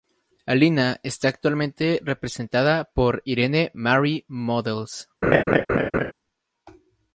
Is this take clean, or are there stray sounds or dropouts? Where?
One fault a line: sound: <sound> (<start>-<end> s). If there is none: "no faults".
sound: laugh (5.2-6.1 s)